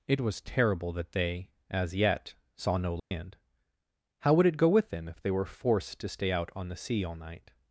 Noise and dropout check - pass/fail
fail